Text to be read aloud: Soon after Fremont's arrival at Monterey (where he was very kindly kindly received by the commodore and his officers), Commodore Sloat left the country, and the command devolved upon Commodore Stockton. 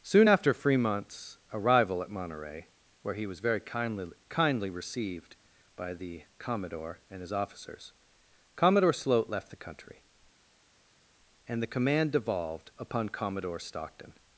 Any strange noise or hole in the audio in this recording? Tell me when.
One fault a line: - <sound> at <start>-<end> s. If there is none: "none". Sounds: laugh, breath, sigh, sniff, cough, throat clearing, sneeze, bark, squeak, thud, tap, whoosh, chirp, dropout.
none